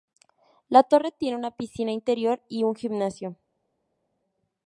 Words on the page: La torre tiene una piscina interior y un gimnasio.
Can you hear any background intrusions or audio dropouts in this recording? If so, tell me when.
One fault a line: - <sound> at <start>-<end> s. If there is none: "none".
none